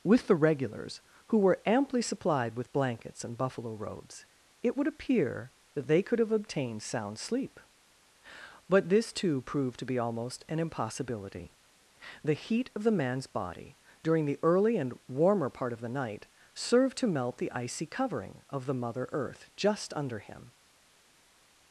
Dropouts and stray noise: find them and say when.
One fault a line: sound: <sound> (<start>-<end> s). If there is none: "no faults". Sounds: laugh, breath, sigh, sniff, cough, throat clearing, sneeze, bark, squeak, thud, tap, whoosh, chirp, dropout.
no faults